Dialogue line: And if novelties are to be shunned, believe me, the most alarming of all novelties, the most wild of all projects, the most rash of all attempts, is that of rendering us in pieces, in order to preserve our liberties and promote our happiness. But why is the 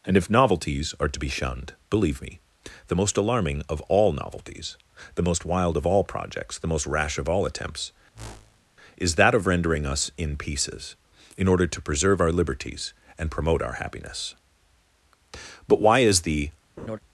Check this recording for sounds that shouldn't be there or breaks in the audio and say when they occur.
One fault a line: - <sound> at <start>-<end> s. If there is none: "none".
- whoosh at 8.1-8.6 s
- laugh at 16.8-17.0 s